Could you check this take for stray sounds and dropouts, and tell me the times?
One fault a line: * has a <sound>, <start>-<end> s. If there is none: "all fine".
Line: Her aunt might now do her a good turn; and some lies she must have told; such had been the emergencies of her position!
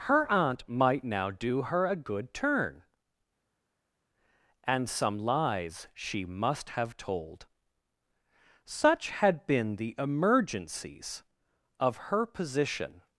all fine